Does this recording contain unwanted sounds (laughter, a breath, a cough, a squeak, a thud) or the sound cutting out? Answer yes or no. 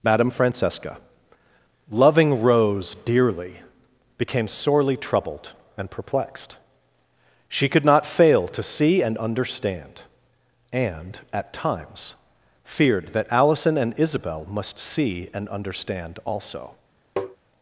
yes